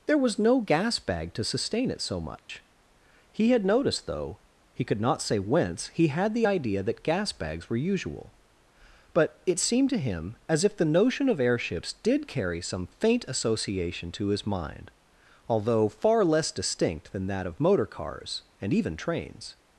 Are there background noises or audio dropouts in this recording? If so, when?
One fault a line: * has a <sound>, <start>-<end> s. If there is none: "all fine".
* has a dropout, 2.4-2.5 s